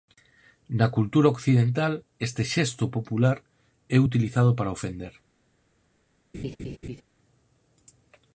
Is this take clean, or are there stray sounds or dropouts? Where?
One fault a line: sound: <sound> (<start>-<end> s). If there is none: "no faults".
sound: laugh (6.3-7.0 s)